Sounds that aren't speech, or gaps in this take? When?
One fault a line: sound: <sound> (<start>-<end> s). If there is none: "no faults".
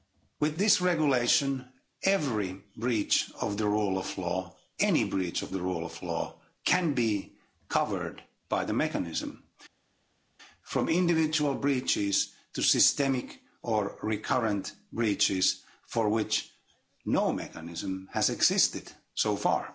no faults